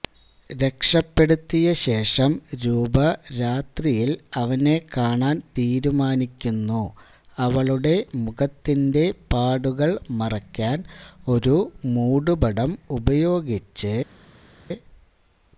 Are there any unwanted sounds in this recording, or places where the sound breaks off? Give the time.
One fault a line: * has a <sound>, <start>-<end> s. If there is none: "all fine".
all fine